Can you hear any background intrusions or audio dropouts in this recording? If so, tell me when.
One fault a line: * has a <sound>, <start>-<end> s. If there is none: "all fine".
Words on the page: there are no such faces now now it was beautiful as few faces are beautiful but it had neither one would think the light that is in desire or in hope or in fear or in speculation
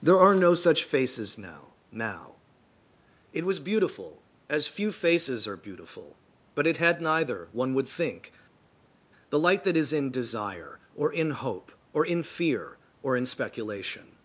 all fine